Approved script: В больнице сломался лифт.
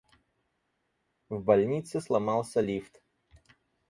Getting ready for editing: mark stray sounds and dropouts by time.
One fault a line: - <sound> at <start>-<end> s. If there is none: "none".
none